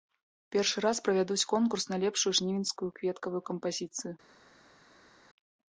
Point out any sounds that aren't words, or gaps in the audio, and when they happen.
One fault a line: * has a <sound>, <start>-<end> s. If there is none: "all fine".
all fine